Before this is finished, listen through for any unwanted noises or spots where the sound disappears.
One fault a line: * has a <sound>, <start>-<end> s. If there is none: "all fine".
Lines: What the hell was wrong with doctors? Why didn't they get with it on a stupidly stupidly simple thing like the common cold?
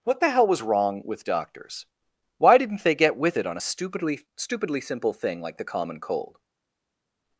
all fine